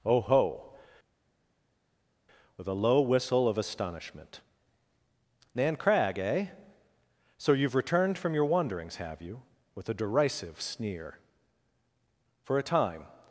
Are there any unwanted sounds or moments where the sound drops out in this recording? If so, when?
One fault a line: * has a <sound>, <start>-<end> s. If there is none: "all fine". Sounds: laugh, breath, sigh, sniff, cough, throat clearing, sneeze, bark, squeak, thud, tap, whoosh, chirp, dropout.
all fine